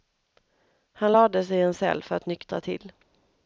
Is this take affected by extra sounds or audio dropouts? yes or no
no